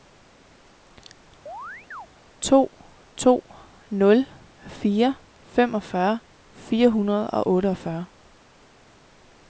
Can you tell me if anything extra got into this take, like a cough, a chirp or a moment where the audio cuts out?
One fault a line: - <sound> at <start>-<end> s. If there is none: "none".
- chirp at 1.5-2.1 s